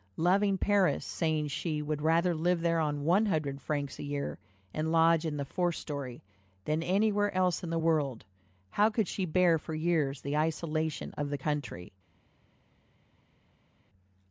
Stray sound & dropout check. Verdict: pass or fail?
pass